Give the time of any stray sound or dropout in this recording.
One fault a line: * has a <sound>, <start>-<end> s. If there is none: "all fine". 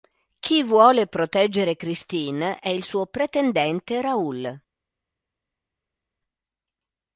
all fine